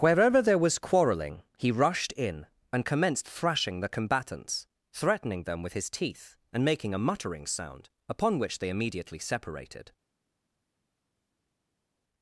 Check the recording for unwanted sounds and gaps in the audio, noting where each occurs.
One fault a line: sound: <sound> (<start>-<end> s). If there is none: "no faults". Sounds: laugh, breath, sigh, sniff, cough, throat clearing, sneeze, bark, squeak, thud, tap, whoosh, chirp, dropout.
no faults